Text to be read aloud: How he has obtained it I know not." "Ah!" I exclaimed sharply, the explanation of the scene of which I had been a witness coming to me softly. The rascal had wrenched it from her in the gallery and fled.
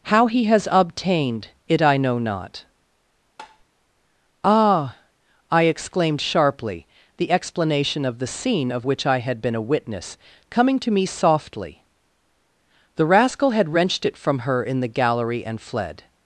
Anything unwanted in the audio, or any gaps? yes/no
yes